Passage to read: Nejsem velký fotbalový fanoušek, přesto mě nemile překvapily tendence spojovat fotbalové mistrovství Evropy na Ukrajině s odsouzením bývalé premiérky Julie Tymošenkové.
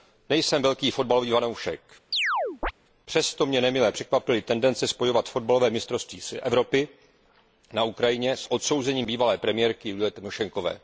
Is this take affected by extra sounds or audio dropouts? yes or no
yes